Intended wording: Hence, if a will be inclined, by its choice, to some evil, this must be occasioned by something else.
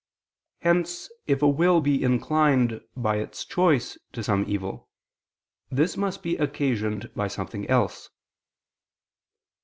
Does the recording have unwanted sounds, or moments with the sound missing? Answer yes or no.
no